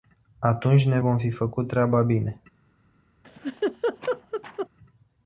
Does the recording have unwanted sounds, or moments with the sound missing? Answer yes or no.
yes